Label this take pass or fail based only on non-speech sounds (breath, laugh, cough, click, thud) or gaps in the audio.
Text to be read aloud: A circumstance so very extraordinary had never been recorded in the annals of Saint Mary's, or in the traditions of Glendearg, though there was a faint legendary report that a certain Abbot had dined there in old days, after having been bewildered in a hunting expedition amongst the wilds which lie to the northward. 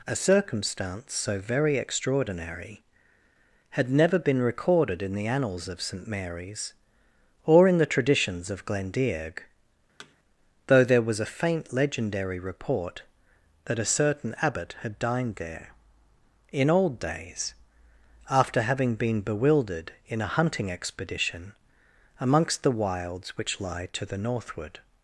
fail